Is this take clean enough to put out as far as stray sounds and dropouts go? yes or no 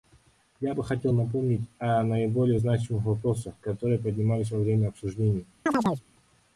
no